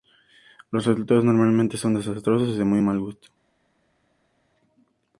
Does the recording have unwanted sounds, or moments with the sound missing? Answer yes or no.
no